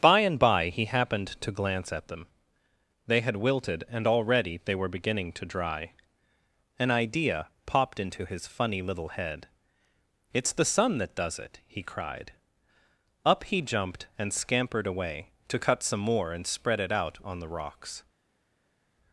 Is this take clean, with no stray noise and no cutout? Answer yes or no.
yes